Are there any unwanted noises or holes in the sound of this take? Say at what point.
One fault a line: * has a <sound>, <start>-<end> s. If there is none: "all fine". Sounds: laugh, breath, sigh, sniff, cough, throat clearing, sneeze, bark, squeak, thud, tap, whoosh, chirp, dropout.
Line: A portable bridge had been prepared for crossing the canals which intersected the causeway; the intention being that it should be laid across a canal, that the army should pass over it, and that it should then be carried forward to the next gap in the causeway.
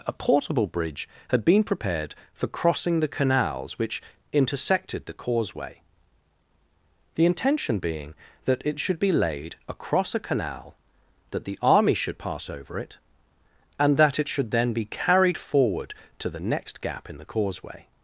all fine